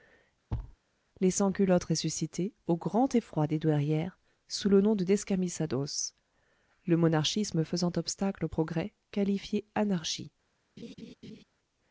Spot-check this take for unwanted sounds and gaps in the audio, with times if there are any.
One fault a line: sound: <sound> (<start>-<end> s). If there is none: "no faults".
sound: thud (0.5-0.8 s)
sound: laugh (10.8-11.4 s)